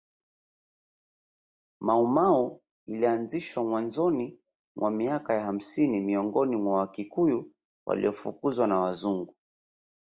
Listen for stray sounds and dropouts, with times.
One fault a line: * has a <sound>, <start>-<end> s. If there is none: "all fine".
all fine